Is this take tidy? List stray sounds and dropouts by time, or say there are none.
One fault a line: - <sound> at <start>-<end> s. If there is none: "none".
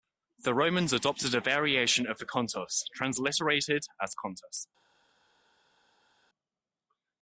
none